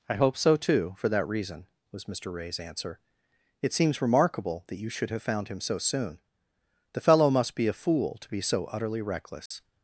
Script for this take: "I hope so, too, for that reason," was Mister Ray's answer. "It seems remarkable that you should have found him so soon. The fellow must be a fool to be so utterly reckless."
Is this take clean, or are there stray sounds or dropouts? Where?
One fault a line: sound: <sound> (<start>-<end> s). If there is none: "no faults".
sound: dropout (9.5-9.5 s)